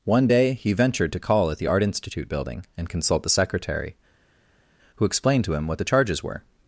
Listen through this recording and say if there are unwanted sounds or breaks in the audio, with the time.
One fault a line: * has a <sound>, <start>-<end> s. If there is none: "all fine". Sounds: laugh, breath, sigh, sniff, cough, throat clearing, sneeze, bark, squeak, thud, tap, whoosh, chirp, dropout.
all fine